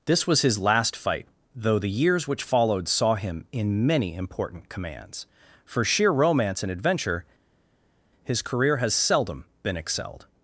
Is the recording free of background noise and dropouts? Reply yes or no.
yes